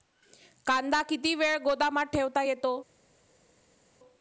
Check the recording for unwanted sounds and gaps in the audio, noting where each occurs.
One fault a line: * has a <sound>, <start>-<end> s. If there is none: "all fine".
all fine